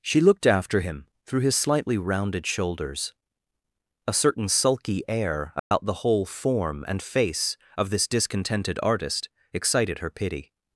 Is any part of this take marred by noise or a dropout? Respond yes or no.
yes